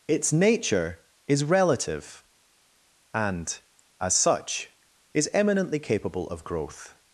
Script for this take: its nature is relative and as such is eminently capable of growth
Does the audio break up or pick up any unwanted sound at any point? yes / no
no